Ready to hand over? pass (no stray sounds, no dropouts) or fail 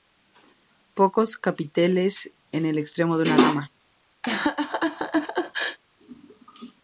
fail